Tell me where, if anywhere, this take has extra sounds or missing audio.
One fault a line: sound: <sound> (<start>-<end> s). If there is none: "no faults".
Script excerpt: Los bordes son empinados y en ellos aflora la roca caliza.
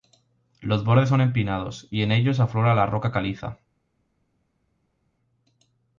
no faults